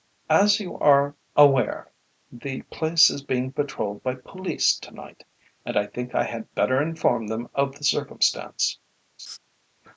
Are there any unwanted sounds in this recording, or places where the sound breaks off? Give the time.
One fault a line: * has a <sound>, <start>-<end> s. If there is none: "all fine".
* has a laugh, 9.2-9.4 s